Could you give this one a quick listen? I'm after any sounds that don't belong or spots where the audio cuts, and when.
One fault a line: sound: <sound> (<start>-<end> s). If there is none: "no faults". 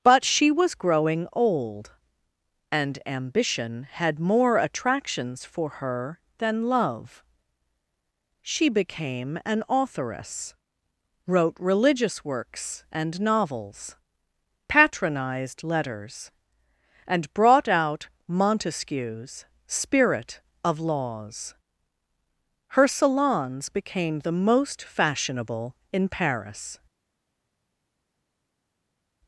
no faults